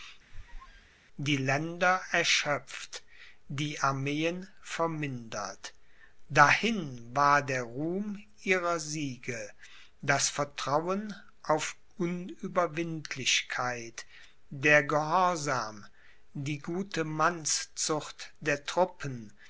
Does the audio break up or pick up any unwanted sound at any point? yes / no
yes